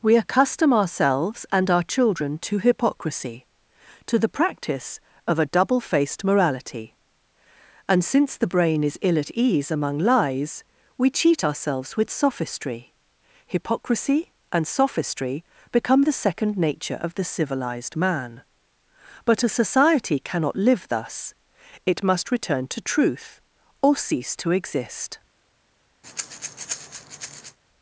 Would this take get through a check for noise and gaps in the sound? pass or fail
fail